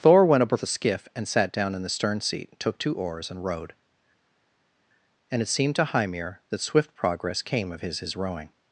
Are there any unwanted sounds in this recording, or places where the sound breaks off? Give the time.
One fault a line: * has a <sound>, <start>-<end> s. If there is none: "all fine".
all fine